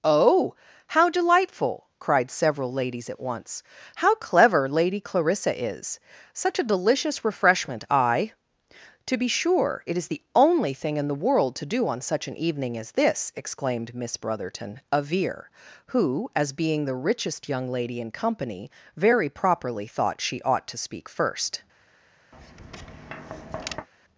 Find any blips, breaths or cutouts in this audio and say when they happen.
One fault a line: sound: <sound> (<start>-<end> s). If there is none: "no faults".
sound: tap (22.3-23.9 s)